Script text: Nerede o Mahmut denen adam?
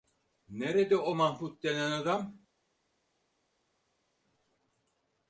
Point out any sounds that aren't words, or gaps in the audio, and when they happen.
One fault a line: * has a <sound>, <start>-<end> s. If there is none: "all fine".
all fine